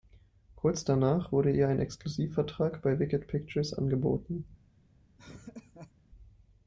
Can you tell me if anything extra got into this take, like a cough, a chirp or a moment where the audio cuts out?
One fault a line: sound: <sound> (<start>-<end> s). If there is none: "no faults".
sound: laugh (5.2-5.9 s)